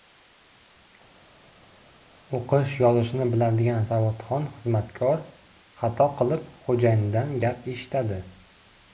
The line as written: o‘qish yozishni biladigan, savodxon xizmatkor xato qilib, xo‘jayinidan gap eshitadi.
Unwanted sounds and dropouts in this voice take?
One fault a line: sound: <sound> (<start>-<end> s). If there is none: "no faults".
no faults